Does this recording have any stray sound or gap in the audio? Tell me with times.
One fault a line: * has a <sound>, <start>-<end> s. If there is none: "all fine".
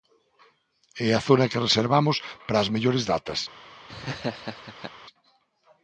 * has a laugh, 3.9-4.9 s